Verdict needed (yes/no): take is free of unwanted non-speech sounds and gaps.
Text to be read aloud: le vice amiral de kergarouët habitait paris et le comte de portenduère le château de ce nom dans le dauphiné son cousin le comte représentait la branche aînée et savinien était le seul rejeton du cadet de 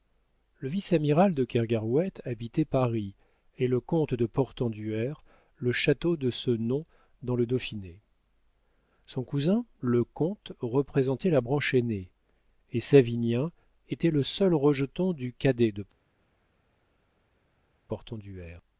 yes